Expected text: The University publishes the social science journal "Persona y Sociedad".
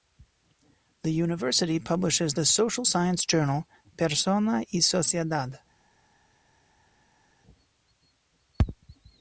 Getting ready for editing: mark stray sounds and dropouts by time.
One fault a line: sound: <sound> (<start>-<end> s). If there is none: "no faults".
no faults